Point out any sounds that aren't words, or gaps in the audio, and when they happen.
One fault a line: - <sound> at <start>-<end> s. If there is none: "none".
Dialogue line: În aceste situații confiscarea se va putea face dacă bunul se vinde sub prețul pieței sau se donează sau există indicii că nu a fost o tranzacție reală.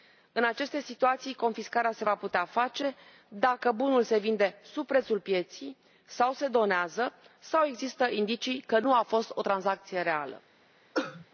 - cough at 10.9-11.3 s